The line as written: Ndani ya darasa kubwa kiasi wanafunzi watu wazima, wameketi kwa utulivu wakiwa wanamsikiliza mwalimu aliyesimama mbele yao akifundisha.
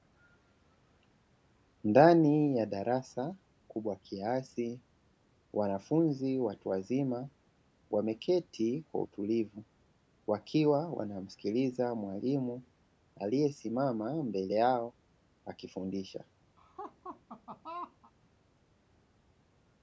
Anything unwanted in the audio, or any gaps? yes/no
yes